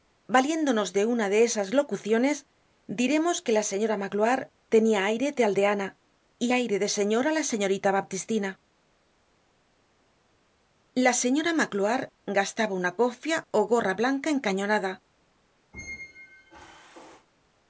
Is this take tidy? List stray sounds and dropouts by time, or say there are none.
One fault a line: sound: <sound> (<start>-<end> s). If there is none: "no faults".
sound: squeak (15.7-17.3 s)